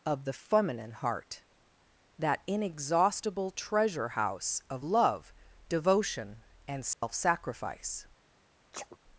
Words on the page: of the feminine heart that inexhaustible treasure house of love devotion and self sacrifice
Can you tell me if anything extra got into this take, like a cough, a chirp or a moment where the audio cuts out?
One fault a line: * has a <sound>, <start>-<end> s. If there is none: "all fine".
* has a dropout, 6.9-7.0 s
* has a sneeze, 8.7-9.0 s